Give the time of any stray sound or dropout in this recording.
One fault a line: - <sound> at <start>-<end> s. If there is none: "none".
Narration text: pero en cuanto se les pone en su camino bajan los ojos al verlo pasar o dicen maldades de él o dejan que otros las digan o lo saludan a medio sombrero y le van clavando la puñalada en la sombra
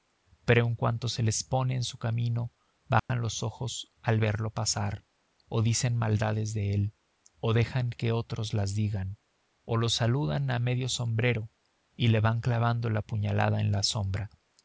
- dropout at 3.0-3.1 s